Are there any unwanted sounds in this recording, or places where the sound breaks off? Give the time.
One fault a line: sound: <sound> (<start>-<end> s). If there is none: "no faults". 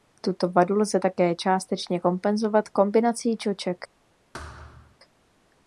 sound: thud (4.3-5.0 s)